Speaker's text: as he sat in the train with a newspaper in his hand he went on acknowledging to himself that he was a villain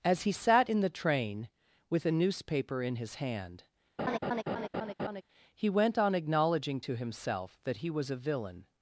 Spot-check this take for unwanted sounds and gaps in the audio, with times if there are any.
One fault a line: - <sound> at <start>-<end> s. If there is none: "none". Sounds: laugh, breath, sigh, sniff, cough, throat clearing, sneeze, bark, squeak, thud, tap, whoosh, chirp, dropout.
- laugh at 4.0-5.2 s